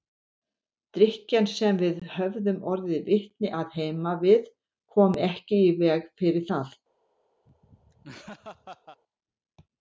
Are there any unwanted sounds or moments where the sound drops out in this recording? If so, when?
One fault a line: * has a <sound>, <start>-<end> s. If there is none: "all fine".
* has a laugh, 7.5-9.0 s